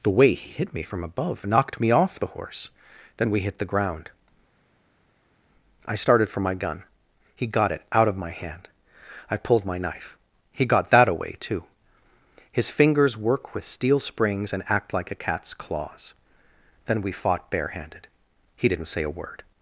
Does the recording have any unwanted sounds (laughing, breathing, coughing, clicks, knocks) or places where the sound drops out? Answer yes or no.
no